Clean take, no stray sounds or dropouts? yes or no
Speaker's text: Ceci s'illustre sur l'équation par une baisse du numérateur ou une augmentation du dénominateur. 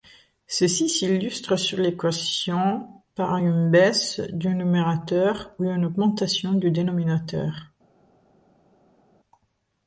yes